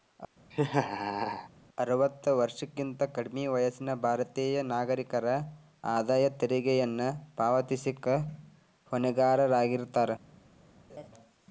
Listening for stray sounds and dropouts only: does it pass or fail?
fail